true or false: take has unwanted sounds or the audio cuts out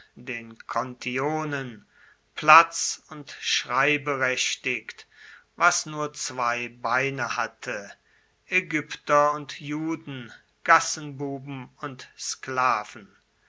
false